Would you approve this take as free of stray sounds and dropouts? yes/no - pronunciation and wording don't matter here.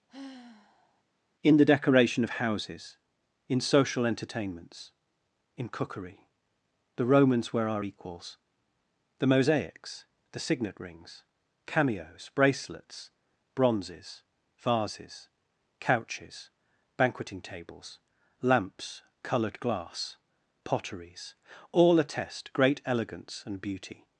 no